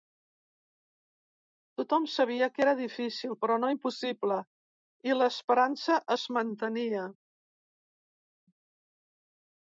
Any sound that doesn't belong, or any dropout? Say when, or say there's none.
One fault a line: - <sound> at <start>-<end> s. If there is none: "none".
none